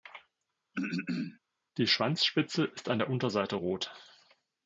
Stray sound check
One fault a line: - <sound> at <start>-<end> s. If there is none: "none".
- throat clearing at 0.7-1.4 s